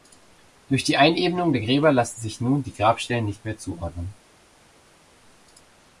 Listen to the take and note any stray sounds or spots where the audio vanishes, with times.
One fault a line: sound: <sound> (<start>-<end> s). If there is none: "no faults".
no faults